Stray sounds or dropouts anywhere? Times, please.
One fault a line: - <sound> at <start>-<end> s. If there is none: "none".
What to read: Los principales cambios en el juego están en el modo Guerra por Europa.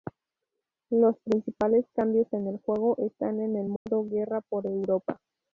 - dropout at 3.8-3.9 s